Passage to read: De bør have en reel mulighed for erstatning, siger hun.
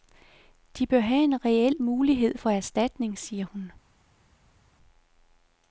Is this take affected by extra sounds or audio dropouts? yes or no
no